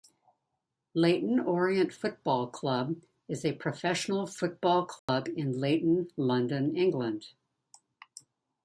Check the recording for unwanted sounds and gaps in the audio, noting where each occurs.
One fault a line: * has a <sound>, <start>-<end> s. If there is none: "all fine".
* has a dropout, 5.0-5.1 s